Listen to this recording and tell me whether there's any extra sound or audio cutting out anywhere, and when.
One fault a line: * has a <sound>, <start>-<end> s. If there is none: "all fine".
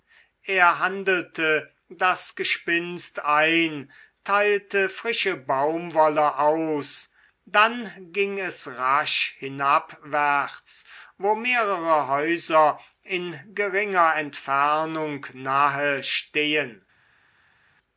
all fine